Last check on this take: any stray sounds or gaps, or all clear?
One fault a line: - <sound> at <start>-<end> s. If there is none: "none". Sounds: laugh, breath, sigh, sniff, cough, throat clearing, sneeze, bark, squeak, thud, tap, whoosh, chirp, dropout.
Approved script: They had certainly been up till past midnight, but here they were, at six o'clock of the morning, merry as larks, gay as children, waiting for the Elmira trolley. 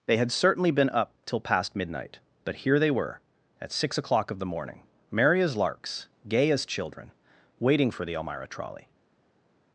none